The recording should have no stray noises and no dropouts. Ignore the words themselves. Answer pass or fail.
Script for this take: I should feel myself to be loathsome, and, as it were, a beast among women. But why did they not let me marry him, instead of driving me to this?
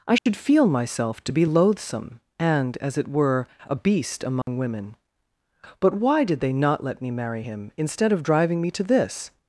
fail